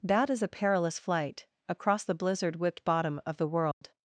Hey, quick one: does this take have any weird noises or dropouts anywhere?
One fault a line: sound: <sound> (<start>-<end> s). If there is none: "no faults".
sound: dropout (3.7-3.8 s)